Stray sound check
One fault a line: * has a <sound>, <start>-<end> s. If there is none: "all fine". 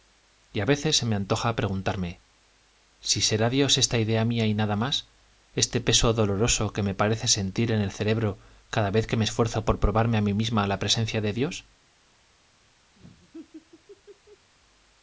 * has a laugh, 13.0-14.5 s